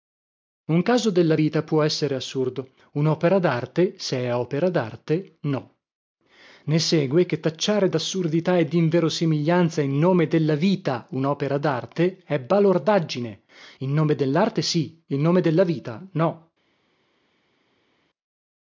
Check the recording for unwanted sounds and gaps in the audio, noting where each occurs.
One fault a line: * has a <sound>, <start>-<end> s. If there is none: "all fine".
all fine